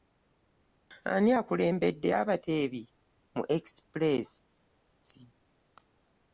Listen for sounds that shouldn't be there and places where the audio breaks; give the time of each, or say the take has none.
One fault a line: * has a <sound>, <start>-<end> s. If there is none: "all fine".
all fine